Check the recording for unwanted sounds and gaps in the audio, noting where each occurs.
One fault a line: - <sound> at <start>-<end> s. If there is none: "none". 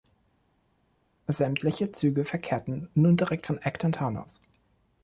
none